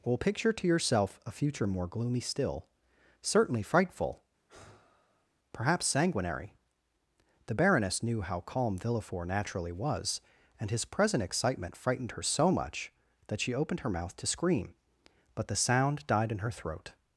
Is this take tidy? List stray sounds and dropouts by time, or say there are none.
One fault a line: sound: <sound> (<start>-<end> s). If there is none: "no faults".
sound: sigh (4.5-5.3 s)